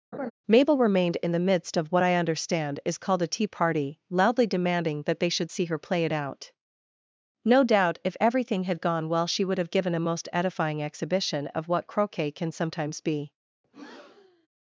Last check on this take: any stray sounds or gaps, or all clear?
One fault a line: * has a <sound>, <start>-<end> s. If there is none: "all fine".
* has a laugh, 0.1-0.3 s
* has a breath, 13.6-14.5 s